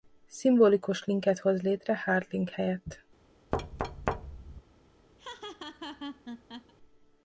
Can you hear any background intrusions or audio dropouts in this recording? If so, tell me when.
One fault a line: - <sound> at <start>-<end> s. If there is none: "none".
- thud at 3.5-4.6 s
- laugh at 5.2-6.7 s